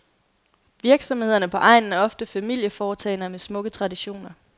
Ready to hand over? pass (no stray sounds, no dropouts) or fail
pass